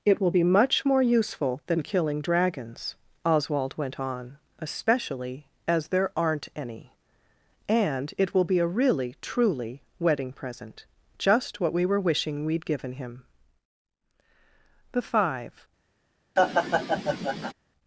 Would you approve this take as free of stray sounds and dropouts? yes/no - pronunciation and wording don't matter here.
no